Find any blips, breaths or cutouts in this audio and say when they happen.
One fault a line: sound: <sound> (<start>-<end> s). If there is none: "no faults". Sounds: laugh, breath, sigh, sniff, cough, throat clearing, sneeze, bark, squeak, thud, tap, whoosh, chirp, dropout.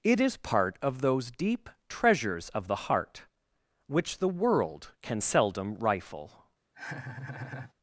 sound: laugh (6.7-7.7 s)